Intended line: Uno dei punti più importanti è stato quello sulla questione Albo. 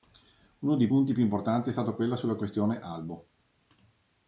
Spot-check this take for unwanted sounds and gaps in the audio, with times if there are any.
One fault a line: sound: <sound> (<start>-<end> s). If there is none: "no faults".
no faults